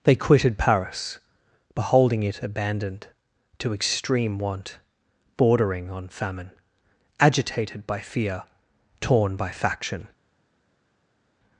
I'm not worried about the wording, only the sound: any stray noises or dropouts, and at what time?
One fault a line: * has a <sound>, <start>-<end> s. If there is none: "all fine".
all fine